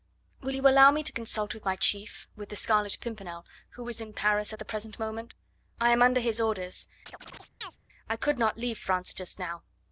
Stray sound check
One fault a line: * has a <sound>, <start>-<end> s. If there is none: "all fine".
* has a chirp, 7.1-7.8 s